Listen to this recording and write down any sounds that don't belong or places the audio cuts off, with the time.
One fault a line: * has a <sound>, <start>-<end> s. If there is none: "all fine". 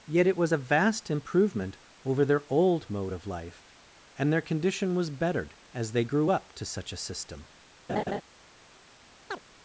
* has a laugh, 7.9-8.2 s
* has a chirp, 9.3-9.4 s